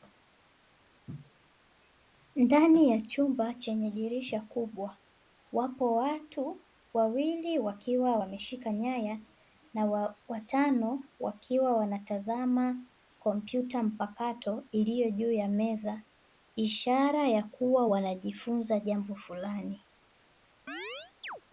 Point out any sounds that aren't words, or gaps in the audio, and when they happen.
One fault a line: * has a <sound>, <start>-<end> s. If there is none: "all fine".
* has a chirp, 20.7-21.4 s